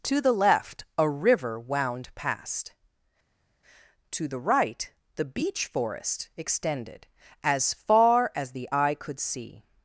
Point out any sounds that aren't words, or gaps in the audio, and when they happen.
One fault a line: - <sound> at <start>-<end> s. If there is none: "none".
none